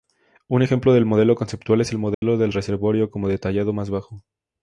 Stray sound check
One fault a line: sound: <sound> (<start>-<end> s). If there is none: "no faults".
sound: dropout (2.1-2.2 s)